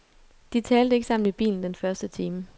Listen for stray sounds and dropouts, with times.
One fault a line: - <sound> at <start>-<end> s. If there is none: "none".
none